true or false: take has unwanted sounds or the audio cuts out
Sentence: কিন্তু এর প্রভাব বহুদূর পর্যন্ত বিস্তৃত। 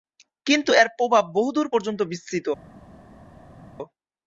false